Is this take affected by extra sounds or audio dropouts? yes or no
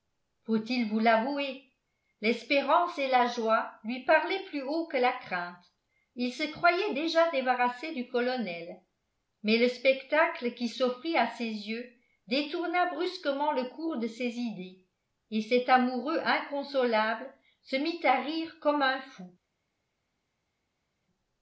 no